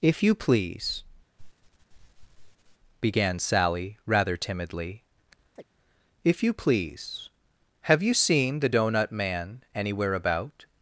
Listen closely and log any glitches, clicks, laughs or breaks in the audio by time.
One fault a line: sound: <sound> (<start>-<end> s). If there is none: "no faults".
sound: sniff (1.4-2.8 s)
sound: chirp (5.6-5.6 s)